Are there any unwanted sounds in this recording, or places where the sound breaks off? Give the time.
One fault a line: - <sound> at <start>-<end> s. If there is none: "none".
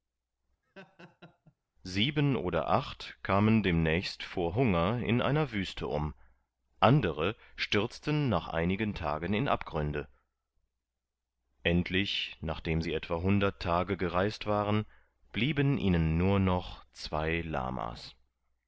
- laugh at 0.6-1.5 s